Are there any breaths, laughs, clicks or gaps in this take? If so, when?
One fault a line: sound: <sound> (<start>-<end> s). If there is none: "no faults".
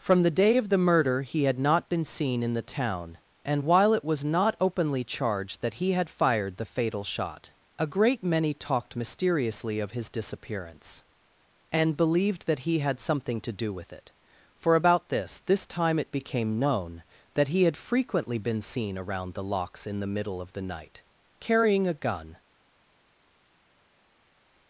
no faults